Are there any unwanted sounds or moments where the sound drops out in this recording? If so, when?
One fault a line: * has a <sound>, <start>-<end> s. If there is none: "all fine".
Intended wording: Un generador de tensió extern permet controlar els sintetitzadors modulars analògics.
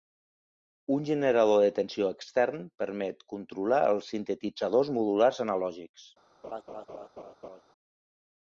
* has a laugh, 6.4-7.6 s